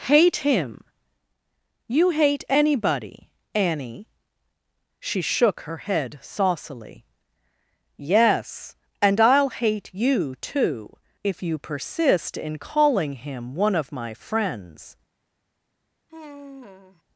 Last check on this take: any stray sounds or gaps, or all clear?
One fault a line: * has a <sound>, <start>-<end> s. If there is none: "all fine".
* has a sigh, 16.1-17.0 s